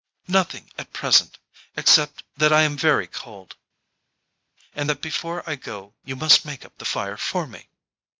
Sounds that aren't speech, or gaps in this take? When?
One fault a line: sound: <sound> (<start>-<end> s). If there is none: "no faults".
no faults